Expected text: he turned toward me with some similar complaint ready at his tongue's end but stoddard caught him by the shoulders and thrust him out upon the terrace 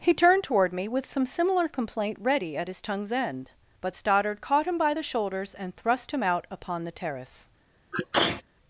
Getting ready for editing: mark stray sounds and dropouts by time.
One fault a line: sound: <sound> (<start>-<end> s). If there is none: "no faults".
sound: sneeze (7.9-8.4 s)